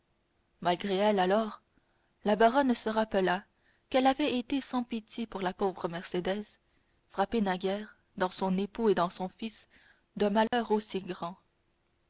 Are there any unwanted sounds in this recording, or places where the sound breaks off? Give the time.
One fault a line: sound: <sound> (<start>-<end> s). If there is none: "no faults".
sound: dropout (10.5-10.5 s)